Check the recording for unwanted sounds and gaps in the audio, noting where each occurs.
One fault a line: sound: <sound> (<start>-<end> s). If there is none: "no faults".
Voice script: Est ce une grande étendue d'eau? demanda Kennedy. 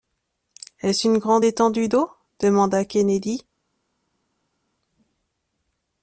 no faults